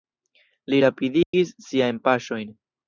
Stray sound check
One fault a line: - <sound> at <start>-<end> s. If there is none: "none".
- dropout at 1.2-1.3 s